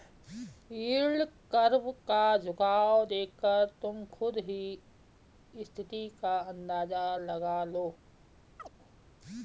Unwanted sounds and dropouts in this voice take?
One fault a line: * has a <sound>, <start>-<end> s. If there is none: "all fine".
* has a chirp, 8.6-8.7 s